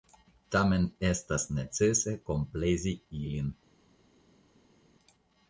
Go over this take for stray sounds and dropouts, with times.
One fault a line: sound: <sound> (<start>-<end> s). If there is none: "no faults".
no faults